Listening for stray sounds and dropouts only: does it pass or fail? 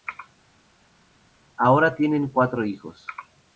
pass